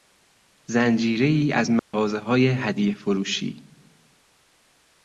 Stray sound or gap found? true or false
true